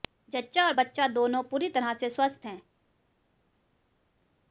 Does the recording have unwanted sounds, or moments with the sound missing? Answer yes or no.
no